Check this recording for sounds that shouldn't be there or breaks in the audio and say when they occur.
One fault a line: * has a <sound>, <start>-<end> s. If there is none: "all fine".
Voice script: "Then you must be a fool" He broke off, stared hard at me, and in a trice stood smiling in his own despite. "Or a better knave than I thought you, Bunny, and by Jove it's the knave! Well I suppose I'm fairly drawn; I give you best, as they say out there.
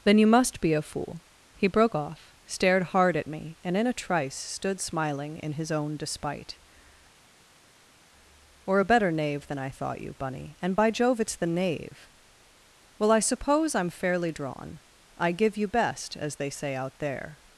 all fine